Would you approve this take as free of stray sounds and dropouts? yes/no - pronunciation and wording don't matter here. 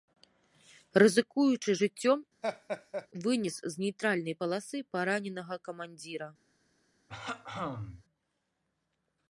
no